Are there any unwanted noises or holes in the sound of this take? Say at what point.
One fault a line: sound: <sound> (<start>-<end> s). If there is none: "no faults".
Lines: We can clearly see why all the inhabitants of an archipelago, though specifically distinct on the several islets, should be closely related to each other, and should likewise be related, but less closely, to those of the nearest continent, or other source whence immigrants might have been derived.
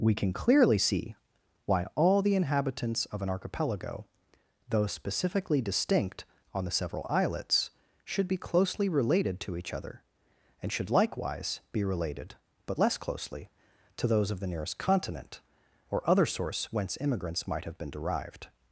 no faults